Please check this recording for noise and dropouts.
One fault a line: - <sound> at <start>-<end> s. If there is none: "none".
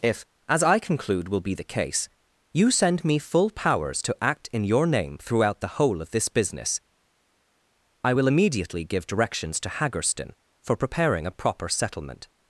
none